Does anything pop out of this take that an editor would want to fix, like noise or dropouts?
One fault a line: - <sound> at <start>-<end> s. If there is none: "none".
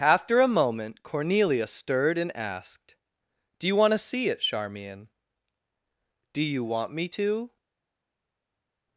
none